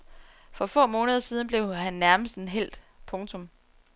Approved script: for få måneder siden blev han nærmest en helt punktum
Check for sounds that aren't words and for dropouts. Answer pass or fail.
pass